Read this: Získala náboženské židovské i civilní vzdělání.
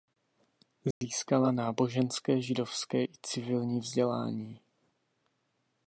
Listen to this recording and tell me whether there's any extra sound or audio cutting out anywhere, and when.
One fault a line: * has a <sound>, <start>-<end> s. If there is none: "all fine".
* has a dropout, 0.9-1.0 s